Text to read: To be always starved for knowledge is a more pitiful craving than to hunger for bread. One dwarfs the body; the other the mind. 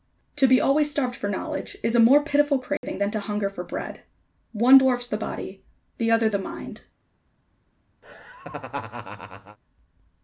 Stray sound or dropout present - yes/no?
yes